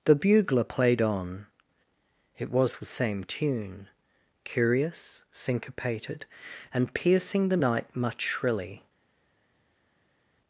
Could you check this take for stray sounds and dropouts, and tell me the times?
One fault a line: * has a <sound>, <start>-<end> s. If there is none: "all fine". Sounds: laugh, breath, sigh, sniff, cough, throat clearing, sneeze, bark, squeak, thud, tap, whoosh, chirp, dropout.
all fine